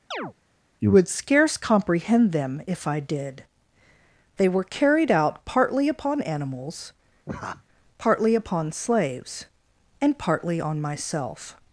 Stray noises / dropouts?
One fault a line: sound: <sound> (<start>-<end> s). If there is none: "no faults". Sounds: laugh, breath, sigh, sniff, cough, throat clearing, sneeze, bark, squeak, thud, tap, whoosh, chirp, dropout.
sound: chirp (0.1-0.3 s)
sound: laugh (7.3-7.6 s)